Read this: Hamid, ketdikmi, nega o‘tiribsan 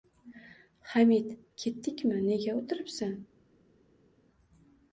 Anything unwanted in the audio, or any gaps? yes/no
no